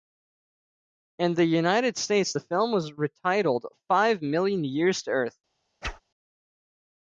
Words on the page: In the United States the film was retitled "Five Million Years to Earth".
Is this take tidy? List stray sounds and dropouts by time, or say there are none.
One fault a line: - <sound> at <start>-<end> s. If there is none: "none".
- whoosh at 5.8-6.0 s